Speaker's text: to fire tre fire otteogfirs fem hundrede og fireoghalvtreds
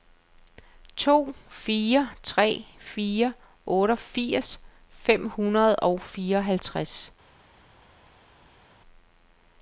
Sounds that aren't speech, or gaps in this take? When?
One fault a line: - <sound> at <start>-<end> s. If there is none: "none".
none